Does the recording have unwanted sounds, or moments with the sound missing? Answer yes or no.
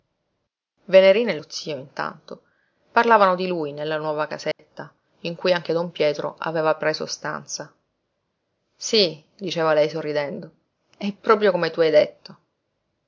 yes